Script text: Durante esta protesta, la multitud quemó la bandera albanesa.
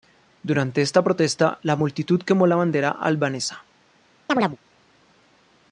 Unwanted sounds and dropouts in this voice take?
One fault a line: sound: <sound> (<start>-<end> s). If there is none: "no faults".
sound: chirp (4.3-4.6 s)